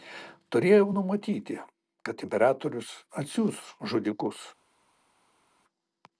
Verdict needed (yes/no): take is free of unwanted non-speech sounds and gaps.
yes